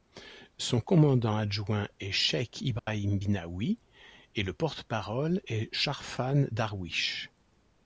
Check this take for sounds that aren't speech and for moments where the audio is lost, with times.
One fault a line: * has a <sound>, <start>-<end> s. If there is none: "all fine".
* has a dropout, 2.8-2.9 s